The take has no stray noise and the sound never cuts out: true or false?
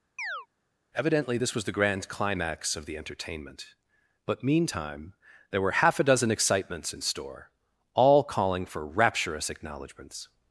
false